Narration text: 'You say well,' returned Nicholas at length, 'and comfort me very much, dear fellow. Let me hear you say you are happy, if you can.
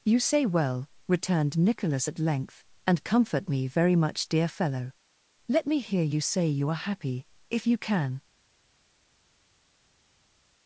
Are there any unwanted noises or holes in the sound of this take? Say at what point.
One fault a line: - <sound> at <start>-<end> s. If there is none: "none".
none